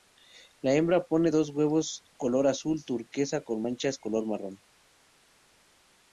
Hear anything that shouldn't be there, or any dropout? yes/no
no